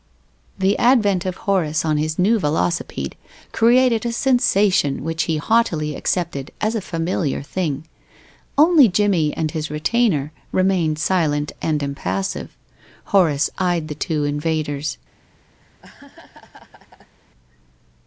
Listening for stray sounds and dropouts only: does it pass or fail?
fail